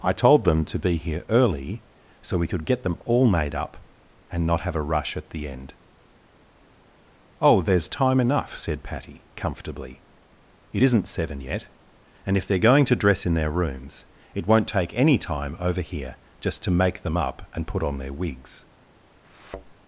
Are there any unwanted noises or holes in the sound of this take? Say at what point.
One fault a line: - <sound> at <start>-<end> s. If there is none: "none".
- thud at 19.2-19.7 s